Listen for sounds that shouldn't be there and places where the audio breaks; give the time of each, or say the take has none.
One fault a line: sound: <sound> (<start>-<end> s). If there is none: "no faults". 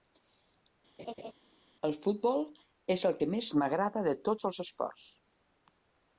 sound: laugh (1.0-1.3 s)